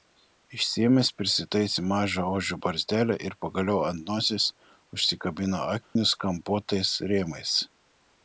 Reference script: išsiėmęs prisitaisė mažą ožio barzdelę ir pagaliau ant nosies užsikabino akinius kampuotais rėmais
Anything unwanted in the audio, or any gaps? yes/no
yes